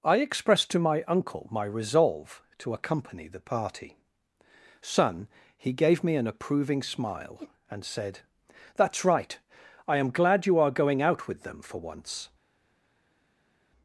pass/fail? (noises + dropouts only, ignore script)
pass